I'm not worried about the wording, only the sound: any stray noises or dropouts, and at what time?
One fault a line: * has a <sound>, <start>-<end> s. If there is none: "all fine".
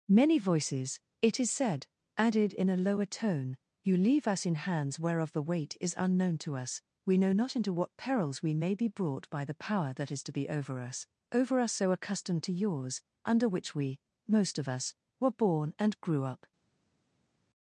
all fine